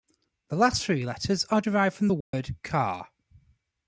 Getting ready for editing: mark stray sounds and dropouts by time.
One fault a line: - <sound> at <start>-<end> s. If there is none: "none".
- dropout at 2.2-2.3 s